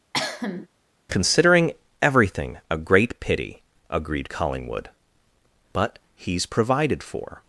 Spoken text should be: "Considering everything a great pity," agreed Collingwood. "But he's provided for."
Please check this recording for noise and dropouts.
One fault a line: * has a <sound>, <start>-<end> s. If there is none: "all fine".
* has a cough, 0.1-0.7 s